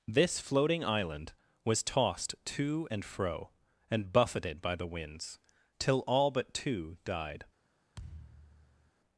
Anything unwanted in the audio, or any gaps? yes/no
yes